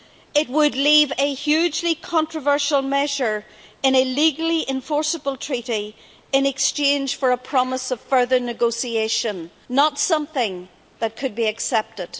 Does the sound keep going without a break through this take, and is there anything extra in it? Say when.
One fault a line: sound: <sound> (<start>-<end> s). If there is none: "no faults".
no faults